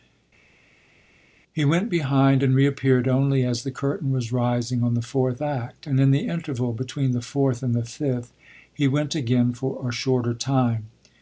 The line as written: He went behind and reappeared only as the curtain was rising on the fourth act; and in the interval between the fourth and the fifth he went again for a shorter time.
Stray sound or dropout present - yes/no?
no